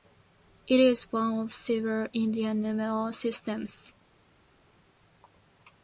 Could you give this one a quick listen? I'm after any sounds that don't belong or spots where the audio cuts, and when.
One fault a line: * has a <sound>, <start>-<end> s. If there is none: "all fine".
all fine